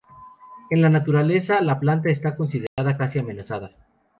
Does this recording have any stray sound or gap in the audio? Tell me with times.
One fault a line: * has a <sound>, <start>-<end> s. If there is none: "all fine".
* has a dropout, 2.7-2.8 s